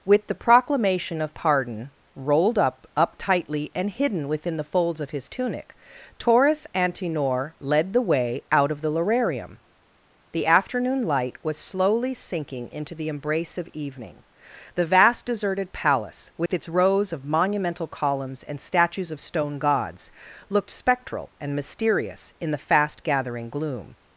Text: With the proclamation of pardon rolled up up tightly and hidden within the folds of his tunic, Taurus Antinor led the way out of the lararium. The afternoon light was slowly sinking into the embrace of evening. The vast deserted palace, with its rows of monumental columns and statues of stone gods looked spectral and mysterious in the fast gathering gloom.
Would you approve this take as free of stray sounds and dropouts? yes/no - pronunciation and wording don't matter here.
no